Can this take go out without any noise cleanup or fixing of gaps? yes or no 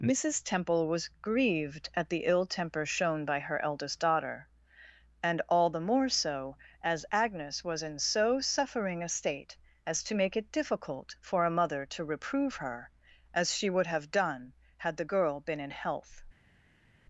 yes